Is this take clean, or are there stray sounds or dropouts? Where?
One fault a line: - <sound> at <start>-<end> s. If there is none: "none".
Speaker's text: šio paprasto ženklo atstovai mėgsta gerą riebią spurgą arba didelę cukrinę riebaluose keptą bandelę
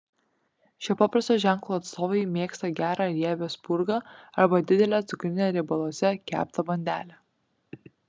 none